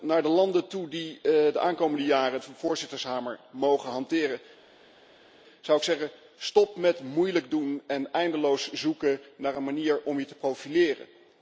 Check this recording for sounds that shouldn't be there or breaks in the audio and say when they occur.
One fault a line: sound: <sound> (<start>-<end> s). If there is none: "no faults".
no faults